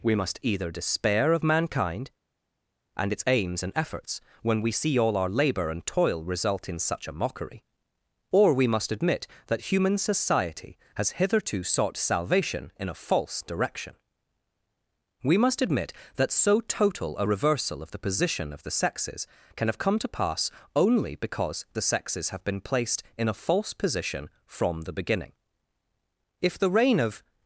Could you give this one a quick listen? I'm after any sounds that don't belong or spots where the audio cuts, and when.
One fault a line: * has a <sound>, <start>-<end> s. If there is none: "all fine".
all fine